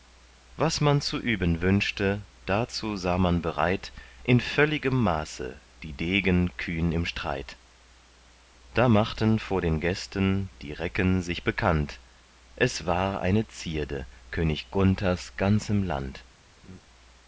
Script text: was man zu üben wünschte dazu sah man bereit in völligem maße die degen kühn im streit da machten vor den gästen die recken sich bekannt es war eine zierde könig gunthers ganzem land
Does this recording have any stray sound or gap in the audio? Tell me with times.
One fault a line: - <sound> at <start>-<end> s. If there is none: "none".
- laugh at 16.6-16.8 s